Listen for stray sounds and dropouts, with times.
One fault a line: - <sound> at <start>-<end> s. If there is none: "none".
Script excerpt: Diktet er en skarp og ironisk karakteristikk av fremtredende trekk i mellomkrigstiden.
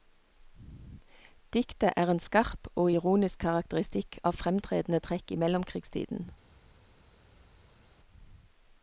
none